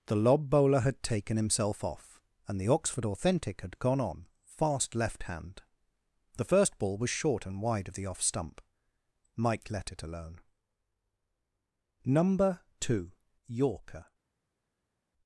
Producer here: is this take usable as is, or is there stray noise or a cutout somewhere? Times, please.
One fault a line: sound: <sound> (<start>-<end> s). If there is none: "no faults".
no faults